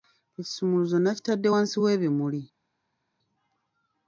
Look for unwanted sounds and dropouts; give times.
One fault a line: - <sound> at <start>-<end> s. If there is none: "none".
none